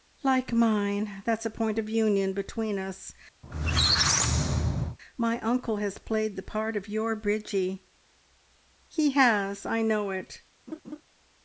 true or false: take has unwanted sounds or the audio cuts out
true